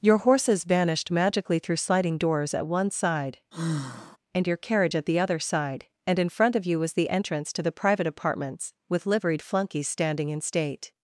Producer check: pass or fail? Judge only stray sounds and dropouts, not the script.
fail